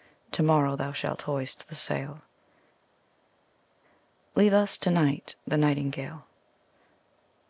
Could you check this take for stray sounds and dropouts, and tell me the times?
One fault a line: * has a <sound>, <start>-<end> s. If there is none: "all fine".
all fine